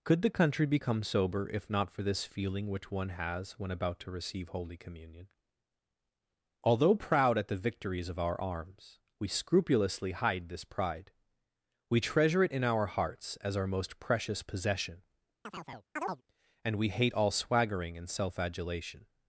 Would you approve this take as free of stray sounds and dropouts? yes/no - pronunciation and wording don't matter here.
no